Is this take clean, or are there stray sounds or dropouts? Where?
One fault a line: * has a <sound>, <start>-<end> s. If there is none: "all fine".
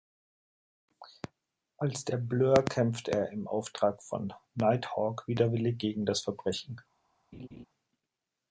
* has a laugh, 7.3-7.7 s